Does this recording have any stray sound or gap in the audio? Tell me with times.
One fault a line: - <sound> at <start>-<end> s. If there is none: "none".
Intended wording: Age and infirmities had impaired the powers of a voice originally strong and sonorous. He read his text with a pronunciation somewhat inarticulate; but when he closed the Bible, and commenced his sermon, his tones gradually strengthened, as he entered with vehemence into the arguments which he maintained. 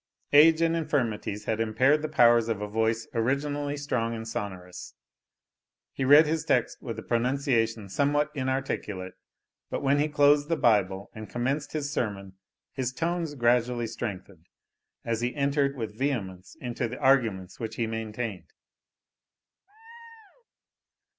- laugh at 19.7-20.5 s